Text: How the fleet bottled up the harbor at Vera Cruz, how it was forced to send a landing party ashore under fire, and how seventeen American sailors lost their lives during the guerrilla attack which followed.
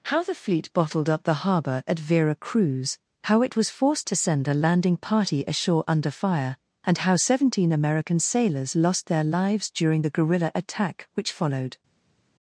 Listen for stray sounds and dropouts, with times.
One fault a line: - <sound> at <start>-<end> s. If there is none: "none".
none